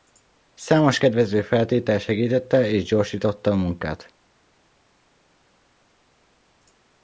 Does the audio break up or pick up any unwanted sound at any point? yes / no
no